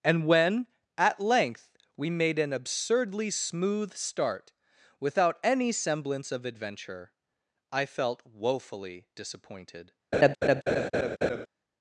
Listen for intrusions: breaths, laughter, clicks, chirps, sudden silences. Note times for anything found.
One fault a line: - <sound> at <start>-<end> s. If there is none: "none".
- laugh at 10.1-11.5 s